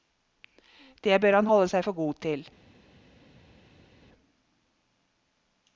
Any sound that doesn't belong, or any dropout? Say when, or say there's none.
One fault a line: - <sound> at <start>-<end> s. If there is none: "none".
none